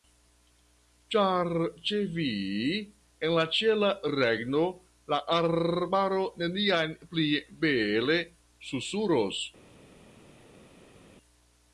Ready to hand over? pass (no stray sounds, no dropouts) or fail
pass